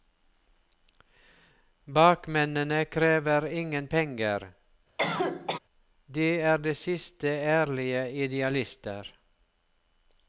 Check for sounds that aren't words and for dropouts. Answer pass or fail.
fail